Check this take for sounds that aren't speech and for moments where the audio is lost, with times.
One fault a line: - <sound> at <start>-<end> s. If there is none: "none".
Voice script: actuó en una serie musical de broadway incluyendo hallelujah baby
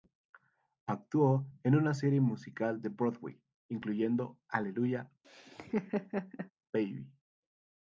- laugh at 5.2-6.5 s